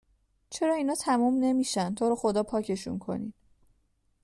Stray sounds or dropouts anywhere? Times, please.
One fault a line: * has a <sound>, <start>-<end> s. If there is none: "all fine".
all fine